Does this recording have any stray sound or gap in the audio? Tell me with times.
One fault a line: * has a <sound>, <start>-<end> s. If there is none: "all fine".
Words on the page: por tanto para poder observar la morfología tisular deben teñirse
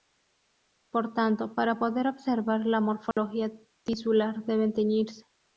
* has a dropout, 3.1-3.2 s